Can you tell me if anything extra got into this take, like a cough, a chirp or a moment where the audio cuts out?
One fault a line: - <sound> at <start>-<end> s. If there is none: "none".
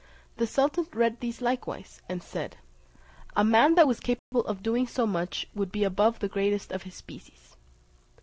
- dropout at 4.2-4.3 s